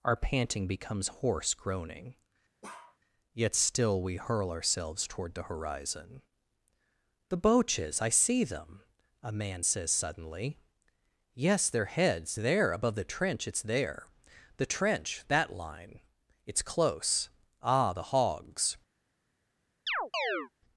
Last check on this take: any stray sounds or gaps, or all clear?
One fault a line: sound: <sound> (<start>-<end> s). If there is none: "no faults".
sound: bark (2.6-3.0 s)
sound: chirp (19.9-20.5 s)